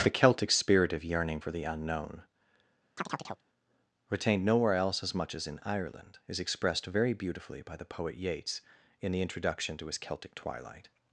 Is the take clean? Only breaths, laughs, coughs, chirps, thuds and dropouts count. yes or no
no